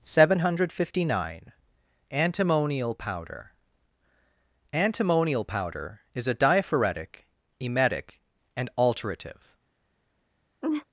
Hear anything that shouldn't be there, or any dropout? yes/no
yes